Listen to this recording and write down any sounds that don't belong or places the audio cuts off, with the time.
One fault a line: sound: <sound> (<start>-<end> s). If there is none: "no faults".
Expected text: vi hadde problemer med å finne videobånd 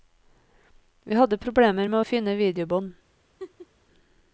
sound: laugh (3.4-3.7 s)